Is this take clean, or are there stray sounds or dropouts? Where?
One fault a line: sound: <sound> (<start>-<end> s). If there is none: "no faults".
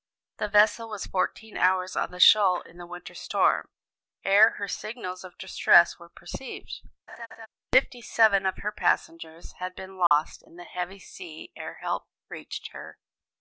sound: laugh (7.1-7.5 s)
sound: dropout (10.1-10.1 s)